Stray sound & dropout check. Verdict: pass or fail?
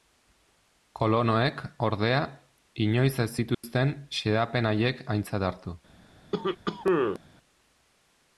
fail